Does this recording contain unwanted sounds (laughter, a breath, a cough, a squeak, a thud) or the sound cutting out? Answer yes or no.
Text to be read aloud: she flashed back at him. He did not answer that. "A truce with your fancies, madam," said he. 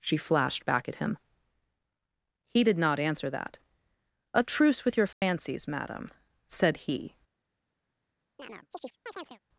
yes